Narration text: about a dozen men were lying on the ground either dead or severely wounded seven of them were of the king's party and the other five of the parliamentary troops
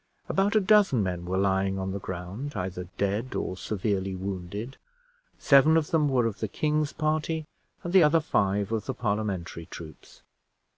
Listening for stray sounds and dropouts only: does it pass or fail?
pass